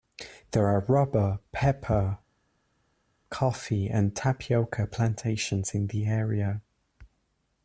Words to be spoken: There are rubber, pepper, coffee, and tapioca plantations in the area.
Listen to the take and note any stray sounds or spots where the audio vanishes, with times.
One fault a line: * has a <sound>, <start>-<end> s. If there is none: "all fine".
all fine